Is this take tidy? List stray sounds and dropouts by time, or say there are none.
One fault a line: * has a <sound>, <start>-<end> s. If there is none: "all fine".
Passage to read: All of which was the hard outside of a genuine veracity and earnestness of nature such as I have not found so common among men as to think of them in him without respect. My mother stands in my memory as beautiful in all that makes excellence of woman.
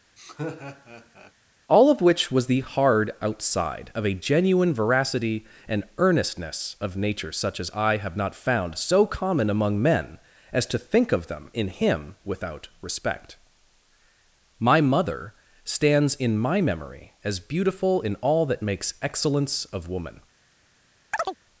* has a laugh, 0.2-1.3 s
* has a chirp, 21.1-21.4 s